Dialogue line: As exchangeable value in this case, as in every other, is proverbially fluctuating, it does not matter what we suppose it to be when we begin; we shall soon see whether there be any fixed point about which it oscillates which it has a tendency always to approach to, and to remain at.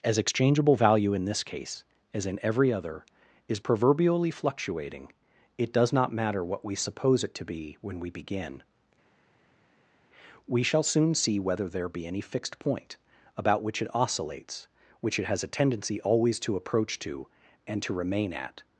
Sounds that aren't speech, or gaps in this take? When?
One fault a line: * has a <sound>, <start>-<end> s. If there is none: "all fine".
all fine